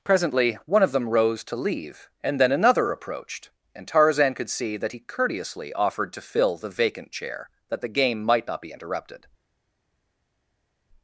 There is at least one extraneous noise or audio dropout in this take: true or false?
false